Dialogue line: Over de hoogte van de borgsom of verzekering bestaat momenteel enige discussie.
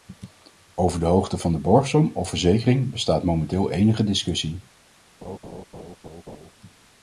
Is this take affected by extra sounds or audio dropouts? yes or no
yes